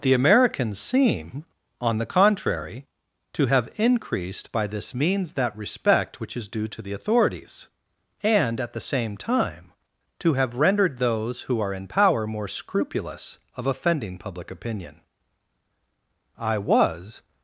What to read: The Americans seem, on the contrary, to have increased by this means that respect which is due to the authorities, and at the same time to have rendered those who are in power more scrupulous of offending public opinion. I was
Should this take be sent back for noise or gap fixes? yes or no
no